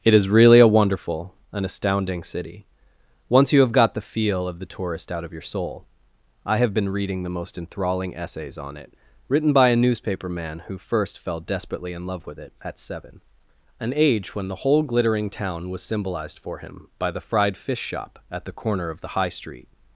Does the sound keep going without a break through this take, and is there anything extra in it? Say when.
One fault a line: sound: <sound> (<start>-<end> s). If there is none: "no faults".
no faults